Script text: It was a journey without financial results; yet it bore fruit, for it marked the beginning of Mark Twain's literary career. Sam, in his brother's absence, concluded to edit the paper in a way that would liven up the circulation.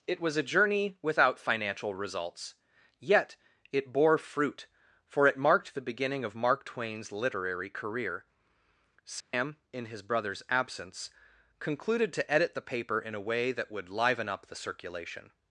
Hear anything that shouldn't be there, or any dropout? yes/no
yes